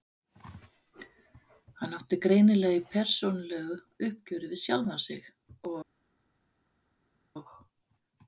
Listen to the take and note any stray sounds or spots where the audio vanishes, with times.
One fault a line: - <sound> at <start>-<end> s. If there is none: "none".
none